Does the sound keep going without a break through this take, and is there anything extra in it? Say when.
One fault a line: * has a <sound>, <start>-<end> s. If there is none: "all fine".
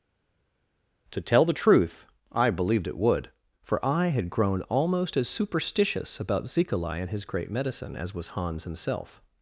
all fine